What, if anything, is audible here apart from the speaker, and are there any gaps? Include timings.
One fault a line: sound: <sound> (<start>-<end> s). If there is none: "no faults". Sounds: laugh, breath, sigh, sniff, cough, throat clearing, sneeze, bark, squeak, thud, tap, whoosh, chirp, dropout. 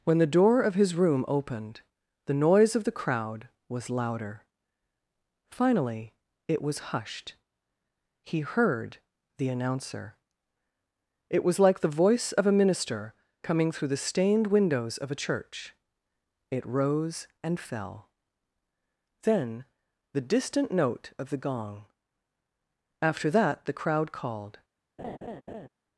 sound: laugh (25.0-25.7 s)